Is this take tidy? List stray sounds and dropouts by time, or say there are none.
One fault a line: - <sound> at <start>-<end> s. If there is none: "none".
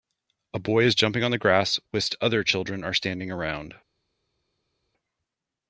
none